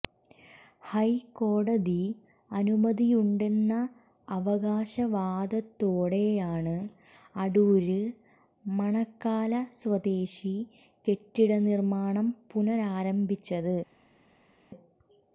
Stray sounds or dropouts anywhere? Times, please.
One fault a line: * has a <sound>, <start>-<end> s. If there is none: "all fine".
all fine